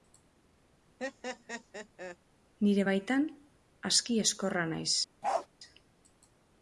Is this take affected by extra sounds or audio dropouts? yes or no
yes